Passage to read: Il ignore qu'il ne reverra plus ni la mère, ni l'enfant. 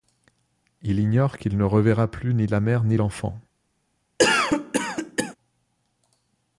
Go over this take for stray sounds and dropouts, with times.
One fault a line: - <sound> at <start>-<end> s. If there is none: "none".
- cough at 4.2-5.4 s